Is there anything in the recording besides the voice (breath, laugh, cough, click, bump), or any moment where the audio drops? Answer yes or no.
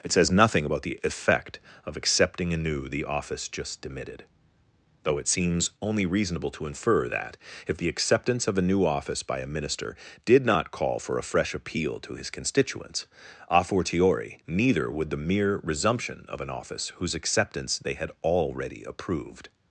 no